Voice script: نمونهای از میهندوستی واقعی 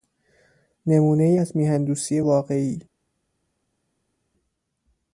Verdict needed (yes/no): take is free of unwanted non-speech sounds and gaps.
yes